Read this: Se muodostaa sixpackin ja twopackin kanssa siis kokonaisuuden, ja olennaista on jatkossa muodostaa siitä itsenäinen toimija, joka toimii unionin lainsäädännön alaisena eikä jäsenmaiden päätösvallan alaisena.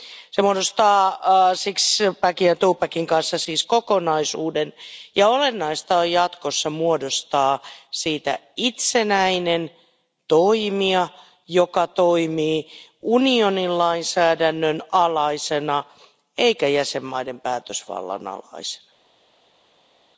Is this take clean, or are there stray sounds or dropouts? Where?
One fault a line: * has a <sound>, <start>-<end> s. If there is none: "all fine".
all fine